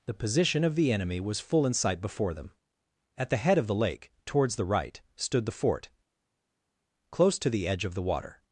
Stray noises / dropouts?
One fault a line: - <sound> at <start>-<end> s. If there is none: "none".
none